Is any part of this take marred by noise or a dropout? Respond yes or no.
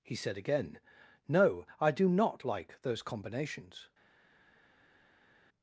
no